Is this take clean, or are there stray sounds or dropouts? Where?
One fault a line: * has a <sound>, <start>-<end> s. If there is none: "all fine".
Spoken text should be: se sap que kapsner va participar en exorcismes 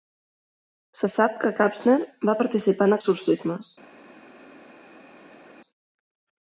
all fine